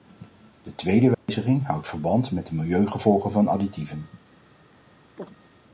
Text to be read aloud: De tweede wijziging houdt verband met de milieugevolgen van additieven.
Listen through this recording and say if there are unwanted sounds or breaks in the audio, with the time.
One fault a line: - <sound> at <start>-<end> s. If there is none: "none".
- dropout at 1.1-1.3 s
- chirp at 5.2-5.3 s